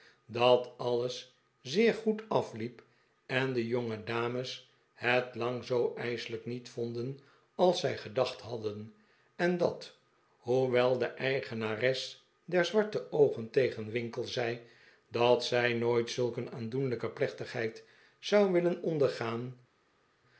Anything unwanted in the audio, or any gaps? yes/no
no